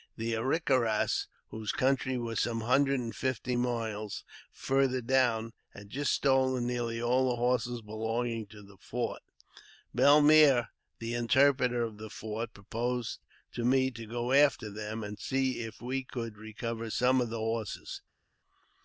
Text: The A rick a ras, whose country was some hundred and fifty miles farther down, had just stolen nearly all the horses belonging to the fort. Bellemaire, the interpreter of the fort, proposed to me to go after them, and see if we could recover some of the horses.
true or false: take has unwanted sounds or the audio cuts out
false